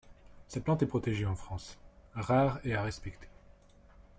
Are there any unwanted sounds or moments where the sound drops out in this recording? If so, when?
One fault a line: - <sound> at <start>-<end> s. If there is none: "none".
none